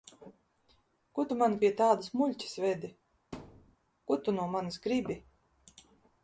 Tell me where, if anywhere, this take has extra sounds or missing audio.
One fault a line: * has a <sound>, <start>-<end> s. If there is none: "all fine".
* has a thud, 3.3-3.8 s